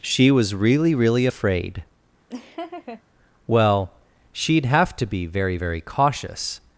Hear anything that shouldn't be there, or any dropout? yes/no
yes